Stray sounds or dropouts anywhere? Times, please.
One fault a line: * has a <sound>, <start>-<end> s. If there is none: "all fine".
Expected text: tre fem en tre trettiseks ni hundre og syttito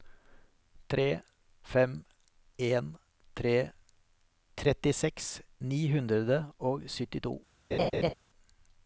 * has a laugh, 7.7-8.1 s